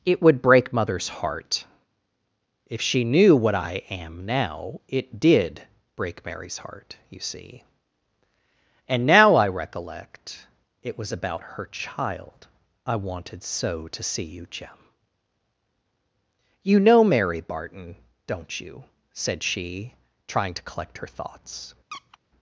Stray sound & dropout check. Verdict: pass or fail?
fail